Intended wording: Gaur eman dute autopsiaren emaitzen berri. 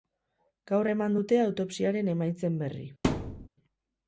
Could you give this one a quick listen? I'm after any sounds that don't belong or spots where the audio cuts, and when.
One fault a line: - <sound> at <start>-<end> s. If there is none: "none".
- thud at 3.0-3.5 s